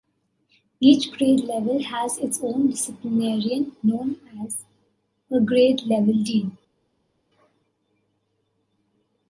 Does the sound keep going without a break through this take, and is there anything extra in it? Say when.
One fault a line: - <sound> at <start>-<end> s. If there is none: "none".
none